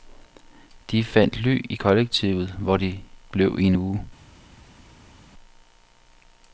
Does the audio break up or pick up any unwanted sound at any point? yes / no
no